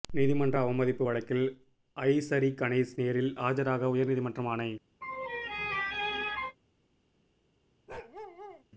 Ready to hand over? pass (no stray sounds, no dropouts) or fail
fail